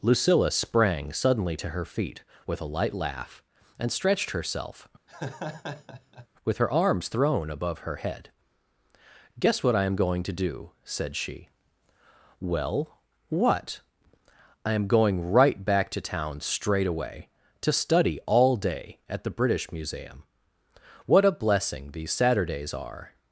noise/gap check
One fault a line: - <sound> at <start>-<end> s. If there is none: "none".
- laugh at 5.1-6.3 s